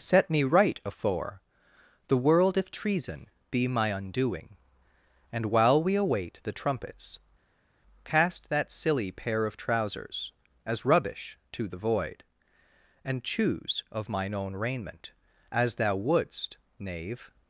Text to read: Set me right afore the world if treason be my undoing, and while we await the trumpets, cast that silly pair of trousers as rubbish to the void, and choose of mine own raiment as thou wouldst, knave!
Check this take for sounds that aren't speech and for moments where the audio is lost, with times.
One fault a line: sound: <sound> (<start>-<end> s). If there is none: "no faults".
no faults